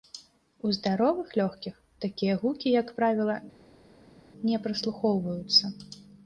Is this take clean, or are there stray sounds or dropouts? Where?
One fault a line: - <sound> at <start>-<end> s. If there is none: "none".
none